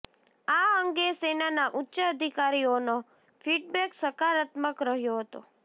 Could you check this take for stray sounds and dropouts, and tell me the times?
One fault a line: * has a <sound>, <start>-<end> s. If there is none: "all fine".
all fine